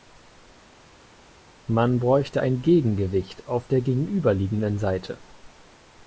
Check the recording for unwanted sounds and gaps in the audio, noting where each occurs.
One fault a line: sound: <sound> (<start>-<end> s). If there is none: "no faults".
no faults